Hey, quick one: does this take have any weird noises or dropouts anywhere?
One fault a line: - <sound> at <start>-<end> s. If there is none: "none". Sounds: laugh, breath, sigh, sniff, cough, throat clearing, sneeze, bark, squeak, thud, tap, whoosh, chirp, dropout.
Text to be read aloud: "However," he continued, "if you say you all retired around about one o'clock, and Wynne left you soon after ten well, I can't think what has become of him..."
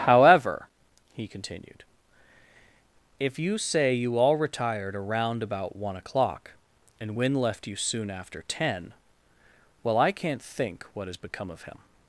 none